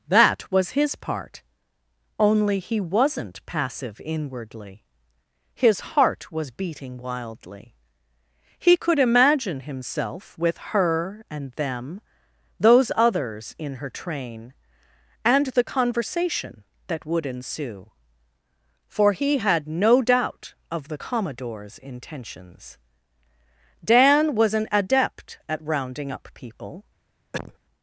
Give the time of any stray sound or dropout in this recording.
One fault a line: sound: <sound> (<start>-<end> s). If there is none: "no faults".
sound: cough (27.3-27.6 s)